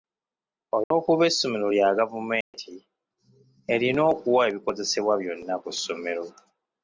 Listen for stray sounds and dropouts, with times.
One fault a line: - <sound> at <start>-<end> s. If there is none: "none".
- dropout at 0.8-0.9 s
- dropout at 2.4-2.5 s